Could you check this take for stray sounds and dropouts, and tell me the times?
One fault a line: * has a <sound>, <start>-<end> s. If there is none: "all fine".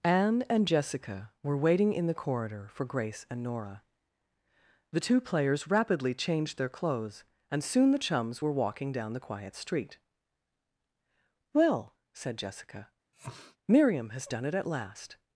* has a sniff, 13.1-13.6 s